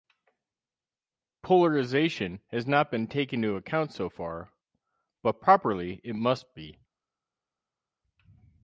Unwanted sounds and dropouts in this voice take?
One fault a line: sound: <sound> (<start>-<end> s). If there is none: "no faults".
no faults